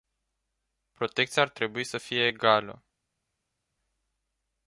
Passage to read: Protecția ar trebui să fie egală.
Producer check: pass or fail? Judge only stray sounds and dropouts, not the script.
pass